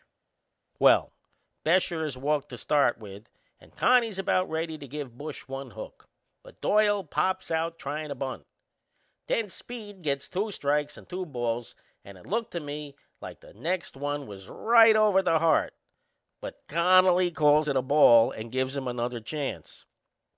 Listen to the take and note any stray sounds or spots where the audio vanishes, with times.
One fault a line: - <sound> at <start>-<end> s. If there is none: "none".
none